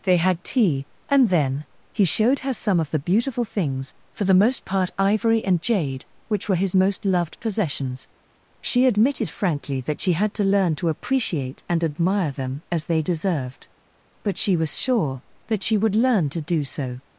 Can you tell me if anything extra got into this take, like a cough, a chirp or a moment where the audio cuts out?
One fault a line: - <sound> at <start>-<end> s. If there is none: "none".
none